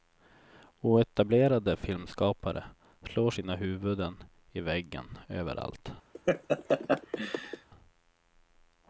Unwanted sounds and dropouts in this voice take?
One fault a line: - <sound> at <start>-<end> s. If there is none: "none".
- laugh at 6.1-7.7 s